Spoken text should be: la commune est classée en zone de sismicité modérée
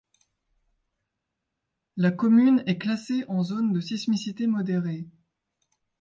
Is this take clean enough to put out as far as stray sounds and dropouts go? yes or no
yes